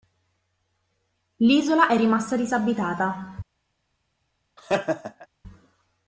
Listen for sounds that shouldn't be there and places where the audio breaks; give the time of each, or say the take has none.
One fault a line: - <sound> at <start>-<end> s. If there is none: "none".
- laugh at 4.6-5.3 s